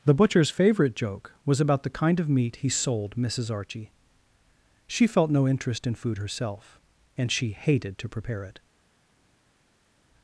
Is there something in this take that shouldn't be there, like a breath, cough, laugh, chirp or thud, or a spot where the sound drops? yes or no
no